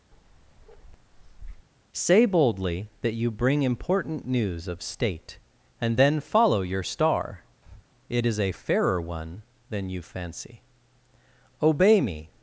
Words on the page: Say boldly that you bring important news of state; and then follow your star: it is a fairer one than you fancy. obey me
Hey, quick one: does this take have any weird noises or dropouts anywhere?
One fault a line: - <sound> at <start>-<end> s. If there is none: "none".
- bark at 0.1-1.7 s
- breath at 7.6-7.9 s